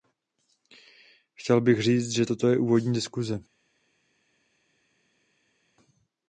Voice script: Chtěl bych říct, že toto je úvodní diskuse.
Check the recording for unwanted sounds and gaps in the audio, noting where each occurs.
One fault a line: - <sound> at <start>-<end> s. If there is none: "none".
none